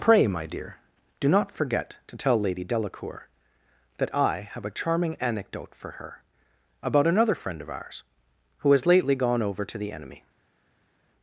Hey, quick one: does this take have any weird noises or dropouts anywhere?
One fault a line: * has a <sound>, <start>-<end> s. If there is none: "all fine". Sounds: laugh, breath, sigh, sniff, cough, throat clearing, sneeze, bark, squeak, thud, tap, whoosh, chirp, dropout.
all fine